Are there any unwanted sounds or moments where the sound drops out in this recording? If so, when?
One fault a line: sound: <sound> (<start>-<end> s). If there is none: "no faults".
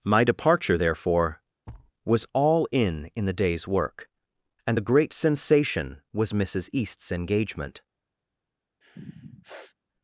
sound: thud (1.7-1.9 s)
sound: sniff (8.8-9.8 s)